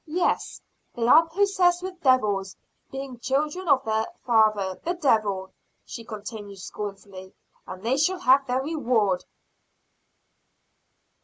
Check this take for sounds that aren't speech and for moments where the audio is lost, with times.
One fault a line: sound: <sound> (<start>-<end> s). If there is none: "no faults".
no faults